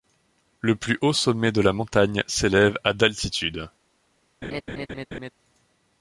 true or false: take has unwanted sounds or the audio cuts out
true